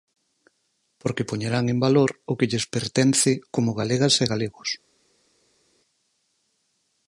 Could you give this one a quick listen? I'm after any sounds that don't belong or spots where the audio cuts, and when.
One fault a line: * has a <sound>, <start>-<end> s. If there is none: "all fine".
all fine